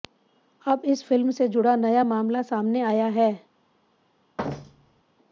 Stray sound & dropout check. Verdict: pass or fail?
fail